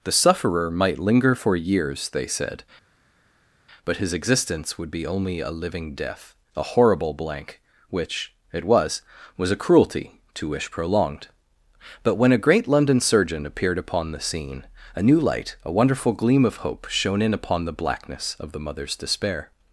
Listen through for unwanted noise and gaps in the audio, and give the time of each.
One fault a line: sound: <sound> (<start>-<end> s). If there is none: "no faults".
no faults